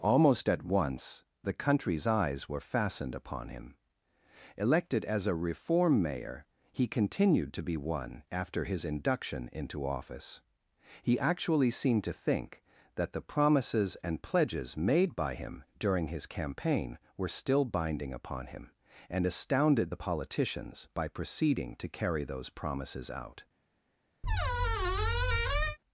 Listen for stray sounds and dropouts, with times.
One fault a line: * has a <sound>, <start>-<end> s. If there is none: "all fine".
* has a squeak, 24.2-25.8 s